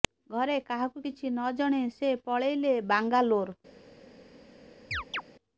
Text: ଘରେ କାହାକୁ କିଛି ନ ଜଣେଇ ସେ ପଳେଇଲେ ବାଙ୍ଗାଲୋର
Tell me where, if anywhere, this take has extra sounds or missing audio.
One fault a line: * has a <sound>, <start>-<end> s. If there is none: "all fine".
* has a chirp, 4.9-5.2 s